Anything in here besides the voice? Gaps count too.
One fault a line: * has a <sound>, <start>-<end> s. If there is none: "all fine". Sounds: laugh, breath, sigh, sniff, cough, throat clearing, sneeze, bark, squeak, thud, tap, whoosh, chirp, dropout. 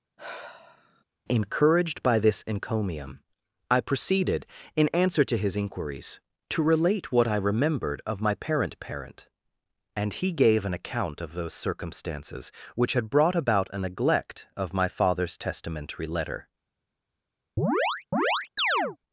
* has a sigh, 0.2-1.0 s
* has a chirp, 17.6-19.0 s